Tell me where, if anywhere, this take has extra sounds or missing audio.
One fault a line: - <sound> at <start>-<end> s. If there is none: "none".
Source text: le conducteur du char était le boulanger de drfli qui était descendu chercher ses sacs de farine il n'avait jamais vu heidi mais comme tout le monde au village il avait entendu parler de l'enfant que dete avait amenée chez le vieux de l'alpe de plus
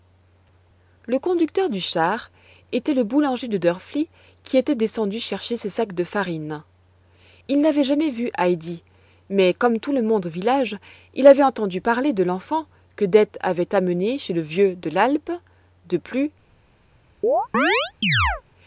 - chirp at 17.2-18.4 s